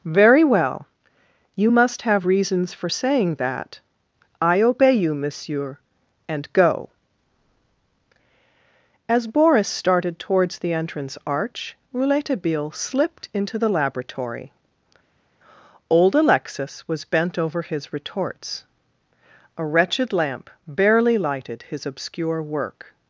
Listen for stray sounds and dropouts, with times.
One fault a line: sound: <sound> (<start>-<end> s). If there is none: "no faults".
no faults